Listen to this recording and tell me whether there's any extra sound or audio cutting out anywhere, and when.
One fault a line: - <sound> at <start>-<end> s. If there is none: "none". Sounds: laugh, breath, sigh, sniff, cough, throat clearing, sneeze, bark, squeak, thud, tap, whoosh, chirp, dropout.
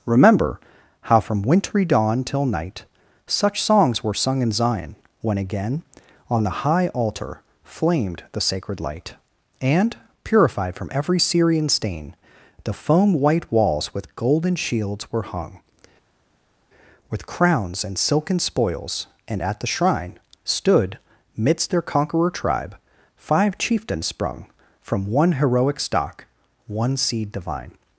none